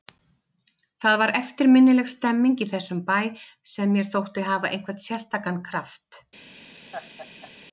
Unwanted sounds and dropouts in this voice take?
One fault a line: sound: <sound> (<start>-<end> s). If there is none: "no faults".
sound: laugh (6.9-7.5 s)